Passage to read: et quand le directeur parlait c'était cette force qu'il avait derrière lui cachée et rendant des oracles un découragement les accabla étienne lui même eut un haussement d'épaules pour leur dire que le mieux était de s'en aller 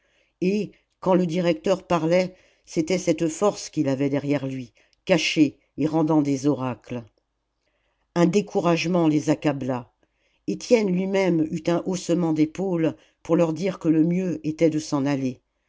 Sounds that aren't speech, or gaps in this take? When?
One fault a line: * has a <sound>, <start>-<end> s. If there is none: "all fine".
all fine